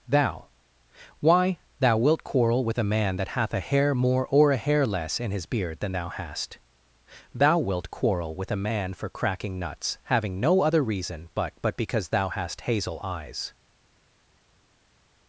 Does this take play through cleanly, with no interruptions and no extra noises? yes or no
yes